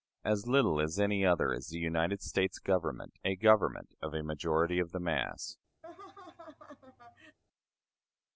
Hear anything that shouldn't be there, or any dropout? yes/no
yes